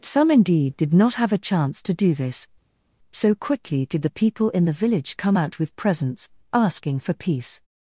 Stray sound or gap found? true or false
false